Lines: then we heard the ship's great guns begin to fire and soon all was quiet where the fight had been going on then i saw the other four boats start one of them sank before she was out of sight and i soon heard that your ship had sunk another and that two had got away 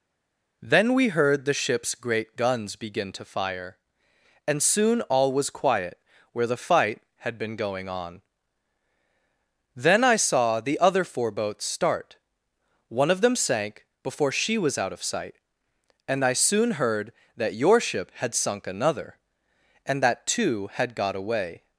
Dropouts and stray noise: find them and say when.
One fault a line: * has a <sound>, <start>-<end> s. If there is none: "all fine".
all fine